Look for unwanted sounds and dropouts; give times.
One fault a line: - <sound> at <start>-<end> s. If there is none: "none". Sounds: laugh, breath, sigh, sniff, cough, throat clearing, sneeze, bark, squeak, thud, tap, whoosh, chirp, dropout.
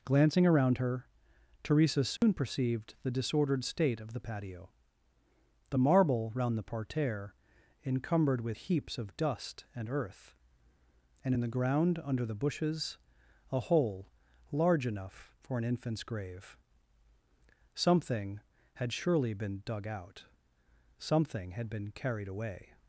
- dropout at 2.2-2.2 s